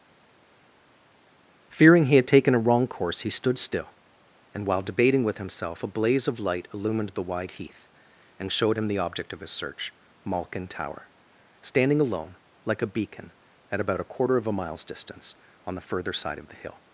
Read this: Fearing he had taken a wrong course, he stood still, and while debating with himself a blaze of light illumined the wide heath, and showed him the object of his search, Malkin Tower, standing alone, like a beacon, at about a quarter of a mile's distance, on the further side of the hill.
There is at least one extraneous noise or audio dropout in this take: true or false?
false